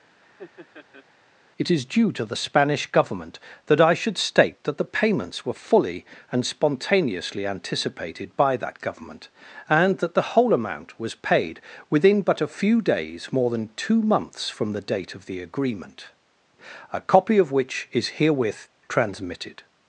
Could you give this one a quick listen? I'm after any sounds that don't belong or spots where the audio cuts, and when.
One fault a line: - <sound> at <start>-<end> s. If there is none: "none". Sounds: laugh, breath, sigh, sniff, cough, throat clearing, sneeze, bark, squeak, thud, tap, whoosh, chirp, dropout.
- laugh at 0.2-1.1 s